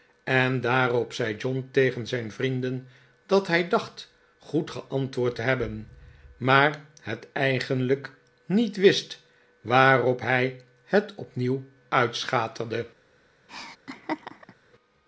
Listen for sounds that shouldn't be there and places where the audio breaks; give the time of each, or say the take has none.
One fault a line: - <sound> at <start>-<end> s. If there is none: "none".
- laugh at 13.5-14.5 s